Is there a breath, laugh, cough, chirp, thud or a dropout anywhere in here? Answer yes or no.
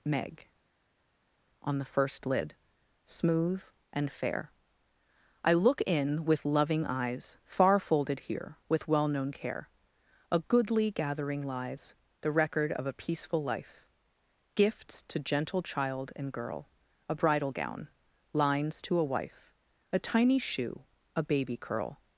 no